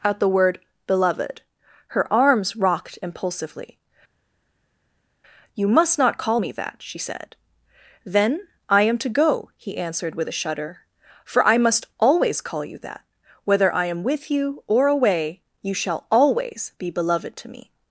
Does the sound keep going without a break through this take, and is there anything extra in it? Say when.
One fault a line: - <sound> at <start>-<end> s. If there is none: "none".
none